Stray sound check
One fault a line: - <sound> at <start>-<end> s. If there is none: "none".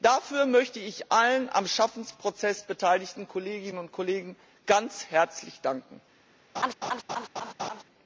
- laugh at 6.5-7.8 s